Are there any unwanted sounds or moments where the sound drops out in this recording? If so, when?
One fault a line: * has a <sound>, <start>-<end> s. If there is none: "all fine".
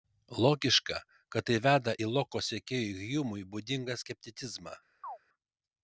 * has a chirp, 5.0-5.2 s